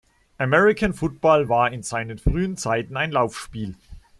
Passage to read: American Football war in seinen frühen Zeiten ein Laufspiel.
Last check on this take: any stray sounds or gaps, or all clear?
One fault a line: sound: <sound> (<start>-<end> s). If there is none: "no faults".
no faults